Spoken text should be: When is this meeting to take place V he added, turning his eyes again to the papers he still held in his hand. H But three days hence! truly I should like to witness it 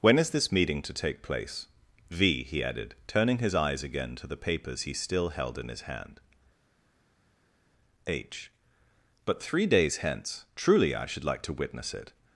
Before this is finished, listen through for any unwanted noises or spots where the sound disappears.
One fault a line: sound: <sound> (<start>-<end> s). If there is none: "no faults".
no faults